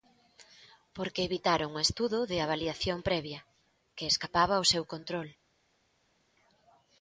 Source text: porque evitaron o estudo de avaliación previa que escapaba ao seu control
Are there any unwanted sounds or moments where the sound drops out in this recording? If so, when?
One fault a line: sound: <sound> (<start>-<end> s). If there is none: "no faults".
no faults